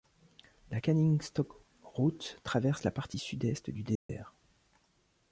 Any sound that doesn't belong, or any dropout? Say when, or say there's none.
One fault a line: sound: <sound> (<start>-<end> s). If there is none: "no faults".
sound: dropout (4.0-4.1 s)